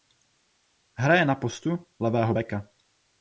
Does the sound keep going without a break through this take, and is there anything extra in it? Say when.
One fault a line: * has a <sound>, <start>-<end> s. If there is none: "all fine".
all fine